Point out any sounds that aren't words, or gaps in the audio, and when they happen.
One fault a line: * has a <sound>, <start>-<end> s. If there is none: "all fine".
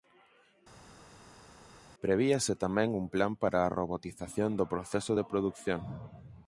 all fine